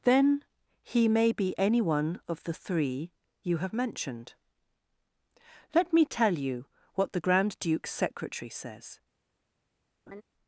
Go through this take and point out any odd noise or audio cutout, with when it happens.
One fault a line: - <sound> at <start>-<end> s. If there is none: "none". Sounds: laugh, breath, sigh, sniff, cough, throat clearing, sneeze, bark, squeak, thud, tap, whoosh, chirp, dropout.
- laugh at 10.1-10.2 s